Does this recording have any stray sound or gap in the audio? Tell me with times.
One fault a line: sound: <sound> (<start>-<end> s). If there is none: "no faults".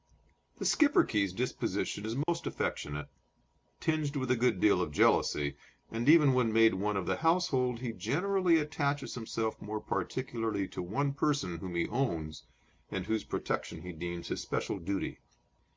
sound: dropout (2.2-2.3 s)